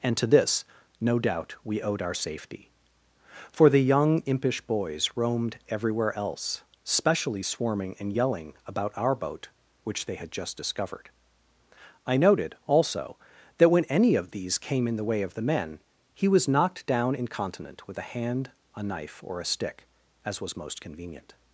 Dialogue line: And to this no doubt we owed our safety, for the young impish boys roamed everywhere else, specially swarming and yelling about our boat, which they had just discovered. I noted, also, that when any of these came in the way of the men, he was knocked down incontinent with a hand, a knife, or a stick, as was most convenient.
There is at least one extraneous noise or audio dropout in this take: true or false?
false